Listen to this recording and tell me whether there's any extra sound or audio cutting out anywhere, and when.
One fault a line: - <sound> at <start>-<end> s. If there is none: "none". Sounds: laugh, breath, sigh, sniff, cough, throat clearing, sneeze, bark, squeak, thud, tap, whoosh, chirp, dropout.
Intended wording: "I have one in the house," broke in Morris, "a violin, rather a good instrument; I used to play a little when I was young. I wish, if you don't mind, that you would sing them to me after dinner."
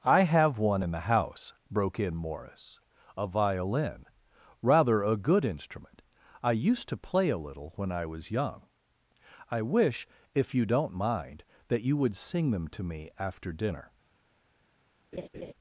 - laugh at 15.1-15.5 s